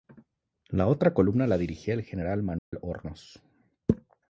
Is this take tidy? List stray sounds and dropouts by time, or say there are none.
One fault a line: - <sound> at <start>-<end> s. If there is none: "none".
- dropout at 2.6-2.7 s